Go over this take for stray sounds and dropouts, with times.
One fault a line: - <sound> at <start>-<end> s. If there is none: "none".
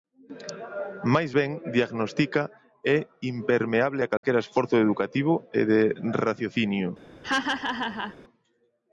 - dropout at 4.2-4.2 s
- laugh at 7.2-8.2 s